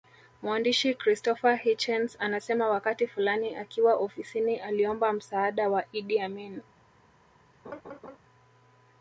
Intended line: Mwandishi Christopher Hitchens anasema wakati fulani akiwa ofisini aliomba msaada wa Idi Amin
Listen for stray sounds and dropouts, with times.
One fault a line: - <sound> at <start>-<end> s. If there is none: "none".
- laugh at 7.6-8.2 s